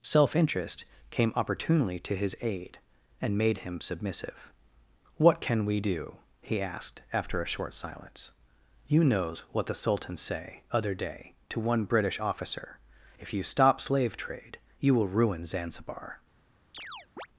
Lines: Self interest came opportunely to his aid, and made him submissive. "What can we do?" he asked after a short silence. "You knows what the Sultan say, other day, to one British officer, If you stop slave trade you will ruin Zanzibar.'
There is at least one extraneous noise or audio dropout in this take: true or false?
true